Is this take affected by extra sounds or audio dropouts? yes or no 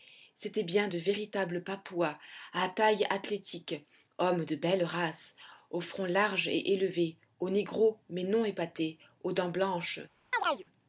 yes